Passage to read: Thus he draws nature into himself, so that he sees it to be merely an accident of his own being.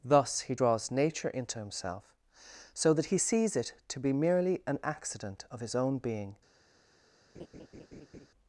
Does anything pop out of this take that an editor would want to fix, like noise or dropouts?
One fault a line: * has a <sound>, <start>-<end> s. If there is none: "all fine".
* has a laugh, 7.3-8.3 s